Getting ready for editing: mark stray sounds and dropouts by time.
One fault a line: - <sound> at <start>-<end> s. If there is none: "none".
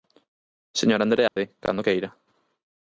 - dropout at 1.3-1.4 s